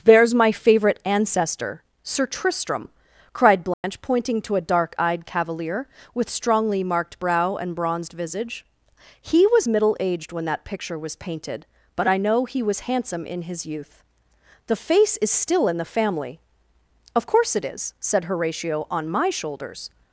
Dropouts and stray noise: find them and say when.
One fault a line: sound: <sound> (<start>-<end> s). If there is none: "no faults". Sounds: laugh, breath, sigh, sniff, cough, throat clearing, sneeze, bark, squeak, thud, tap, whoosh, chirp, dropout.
sound: dropout (3.7-3.8 s)